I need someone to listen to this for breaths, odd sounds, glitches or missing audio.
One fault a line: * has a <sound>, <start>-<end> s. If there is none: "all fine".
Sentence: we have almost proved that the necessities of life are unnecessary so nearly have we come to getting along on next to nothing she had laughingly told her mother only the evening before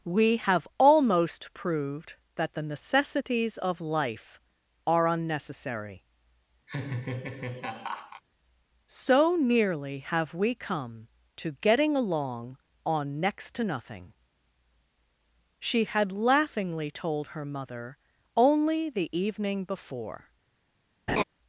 * has a laugh, 6.7-8.2 s
* has a laugh, 21.1-21.2 s